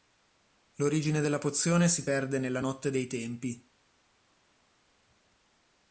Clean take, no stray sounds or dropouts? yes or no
yes